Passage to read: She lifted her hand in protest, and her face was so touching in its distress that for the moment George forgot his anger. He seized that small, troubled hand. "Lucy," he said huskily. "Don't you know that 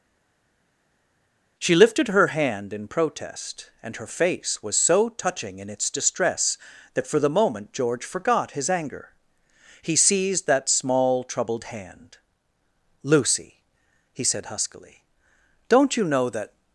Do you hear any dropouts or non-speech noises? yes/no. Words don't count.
no